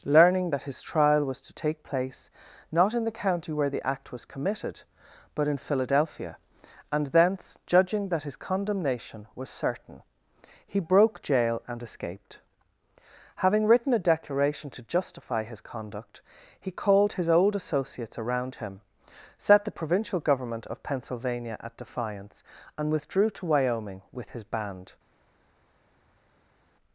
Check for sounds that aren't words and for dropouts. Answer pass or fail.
pass